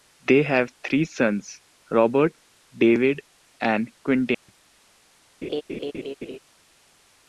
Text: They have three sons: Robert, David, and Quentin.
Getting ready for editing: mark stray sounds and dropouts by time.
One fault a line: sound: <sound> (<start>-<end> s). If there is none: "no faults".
sound: dropout (4.3-4.5 s)
sound: laugh (5.4-6.4 s)